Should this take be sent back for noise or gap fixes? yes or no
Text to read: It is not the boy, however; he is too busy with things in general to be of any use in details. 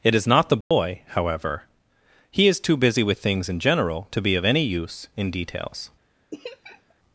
yes